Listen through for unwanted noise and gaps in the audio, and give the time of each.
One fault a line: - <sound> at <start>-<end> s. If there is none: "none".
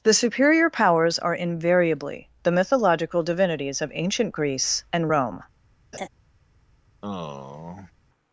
- laugh at 5.9-6.1 s
- sigh at 7.0-7.9 s